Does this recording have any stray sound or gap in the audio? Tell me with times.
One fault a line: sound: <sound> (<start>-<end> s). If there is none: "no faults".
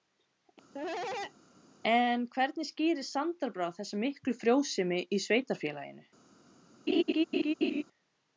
sound: cough (0.7-1.3 s)
sound: laugh (6.9-7.8 s)